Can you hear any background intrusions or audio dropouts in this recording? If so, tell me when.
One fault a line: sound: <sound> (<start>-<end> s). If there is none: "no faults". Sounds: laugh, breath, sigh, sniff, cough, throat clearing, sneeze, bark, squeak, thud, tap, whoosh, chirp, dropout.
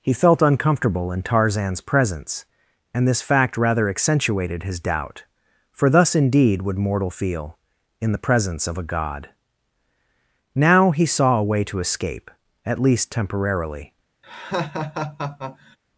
sound: laugh (14.2-15.8 s)